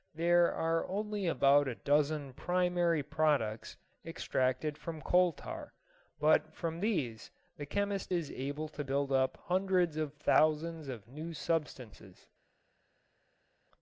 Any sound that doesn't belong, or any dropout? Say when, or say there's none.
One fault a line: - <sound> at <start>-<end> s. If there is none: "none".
none